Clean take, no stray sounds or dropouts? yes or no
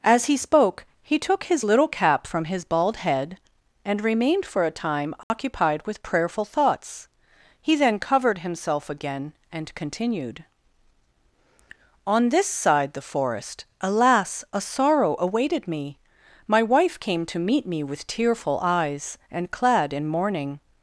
no